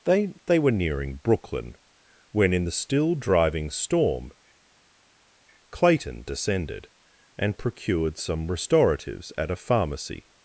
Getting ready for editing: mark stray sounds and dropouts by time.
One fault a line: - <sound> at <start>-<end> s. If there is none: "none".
none